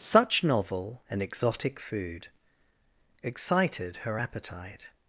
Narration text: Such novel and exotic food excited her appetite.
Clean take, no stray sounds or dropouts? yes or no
yes